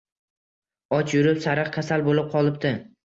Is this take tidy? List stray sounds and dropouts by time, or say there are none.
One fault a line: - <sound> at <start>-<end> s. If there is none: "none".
none